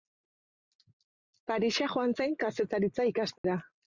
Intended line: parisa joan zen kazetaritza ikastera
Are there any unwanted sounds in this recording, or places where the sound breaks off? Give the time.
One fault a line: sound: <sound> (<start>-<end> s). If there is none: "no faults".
sound: dropout (3.4-3.4 s)